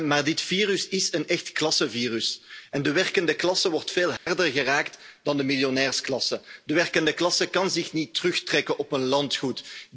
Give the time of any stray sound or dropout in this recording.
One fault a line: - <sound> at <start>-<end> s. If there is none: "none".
- dropout at 4.2-4.3 s